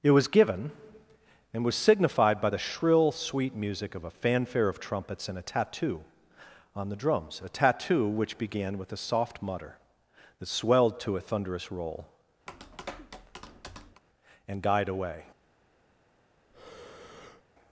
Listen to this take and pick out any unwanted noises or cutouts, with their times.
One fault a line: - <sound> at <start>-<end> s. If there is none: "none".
- tap at 12.5-14.0 s
- breath at 16.5-17.4 s